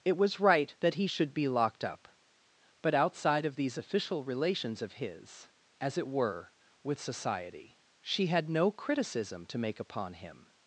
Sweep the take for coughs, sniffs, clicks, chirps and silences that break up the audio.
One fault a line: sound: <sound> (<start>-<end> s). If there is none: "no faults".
no faults